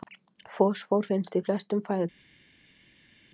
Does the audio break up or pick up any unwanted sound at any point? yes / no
no